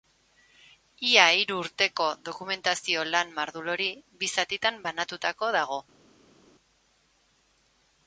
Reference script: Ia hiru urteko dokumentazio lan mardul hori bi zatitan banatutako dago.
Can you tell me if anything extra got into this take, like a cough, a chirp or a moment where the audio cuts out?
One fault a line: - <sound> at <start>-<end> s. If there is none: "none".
none